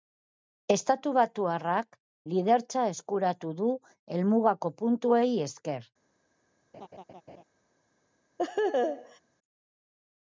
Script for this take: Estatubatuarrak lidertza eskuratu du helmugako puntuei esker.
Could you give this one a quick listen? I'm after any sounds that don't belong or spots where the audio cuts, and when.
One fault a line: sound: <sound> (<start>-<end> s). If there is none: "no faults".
sound: laugh (6.7-7.4 s)
sound: laugh (8.4-9.2 s)